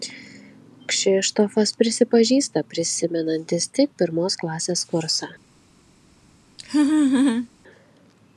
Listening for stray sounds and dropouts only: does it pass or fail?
fail